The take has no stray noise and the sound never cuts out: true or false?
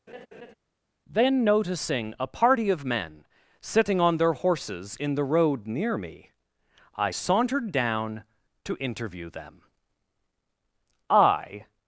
false